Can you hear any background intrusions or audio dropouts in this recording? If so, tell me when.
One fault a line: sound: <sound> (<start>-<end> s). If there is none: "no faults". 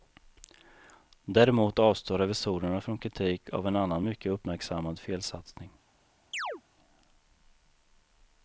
sound: chirp (6.3-6.6 s)